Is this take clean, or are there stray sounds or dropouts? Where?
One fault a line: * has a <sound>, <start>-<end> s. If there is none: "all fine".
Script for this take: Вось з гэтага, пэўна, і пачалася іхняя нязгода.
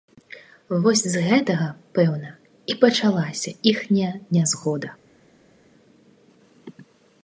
all fine